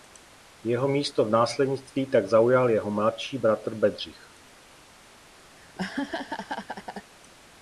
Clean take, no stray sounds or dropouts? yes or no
no